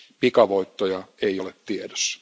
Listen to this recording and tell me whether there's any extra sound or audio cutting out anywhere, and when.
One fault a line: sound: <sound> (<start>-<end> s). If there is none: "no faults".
no faults